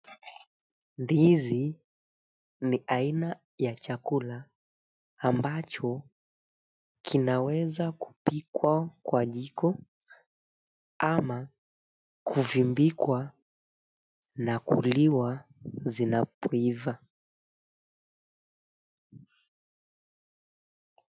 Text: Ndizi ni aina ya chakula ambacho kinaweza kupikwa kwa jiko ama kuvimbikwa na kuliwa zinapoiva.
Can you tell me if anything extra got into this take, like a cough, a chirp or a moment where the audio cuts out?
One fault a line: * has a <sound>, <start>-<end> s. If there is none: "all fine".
all fine